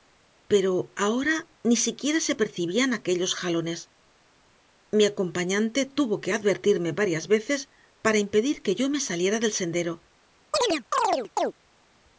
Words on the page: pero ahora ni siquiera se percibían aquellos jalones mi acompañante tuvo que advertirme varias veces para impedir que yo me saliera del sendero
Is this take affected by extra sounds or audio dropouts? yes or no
yes